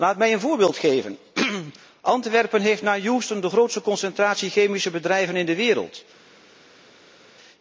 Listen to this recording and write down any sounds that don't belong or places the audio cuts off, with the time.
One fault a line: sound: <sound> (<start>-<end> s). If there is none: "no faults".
no faults